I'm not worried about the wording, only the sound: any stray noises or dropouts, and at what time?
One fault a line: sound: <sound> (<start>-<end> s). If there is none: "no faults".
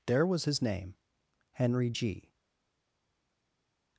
no faults